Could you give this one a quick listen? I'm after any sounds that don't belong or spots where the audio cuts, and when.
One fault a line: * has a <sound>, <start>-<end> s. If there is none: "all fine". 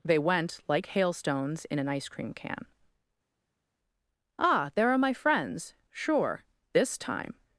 all fine